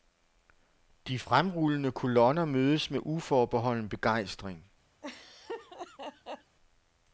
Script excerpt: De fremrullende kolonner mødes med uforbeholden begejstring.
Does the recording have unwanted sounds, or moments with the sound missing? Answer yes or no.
yes